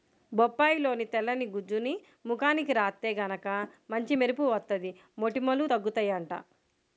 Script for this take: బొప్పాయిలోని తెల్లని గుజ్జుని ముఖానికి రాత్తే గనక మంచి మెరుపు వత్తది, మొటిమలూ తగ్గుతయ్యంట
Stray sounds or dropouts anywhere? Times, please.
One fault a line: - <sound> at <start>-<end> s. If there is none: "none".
none